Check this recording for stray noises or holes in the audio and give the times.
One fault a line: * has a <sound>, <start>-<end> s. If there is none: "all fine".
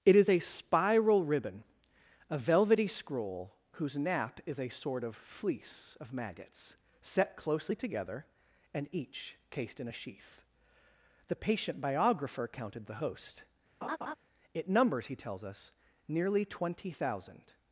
* has a laugh, 13.8-14.2 s